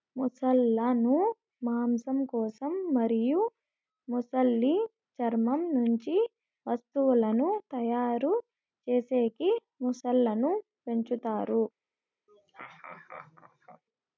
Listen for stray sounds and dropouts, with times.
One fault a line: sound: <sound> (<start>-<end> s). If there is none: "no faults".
sound: laugh (12.3-13.8 s)